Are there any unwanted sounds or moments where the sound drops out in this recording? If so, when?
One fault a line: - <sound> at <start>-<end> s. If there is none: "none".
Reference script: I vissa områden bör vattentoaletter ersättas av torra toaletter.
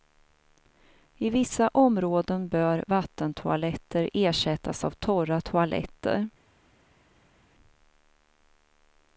none